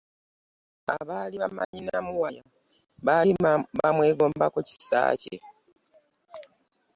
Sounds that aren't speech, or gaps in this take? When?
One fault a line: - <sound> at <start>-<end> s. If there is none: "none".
- dropout at 1.6-1.7 s